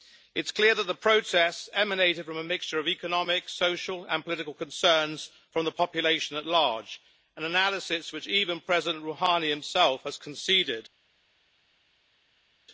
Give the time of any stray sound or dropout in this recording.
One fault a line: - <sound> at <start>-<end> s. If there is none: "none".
none